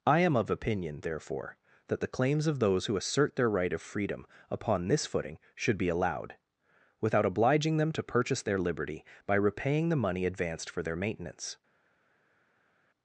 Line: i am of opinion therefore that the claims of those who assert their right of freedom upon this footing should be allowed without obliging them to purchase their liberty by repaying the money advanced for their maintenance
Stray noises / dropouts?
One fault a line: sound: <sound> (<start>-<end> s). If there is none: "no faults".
no faults